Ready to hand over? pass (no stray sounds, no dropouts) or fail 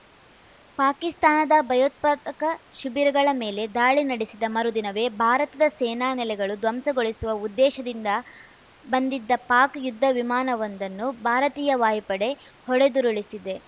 pass